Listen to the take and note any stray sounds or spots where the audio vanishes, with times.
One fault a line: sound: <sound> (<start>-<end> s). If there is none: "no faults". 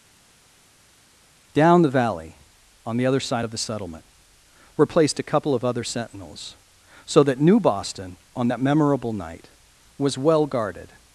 no faults